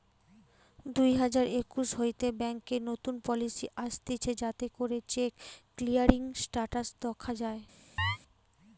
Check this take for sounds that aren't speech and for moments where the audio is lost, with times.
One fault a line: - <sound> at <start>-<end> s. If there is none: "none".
- chirp at 8.0-8.2 s